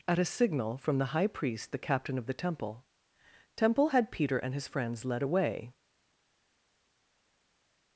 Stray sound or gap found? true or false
false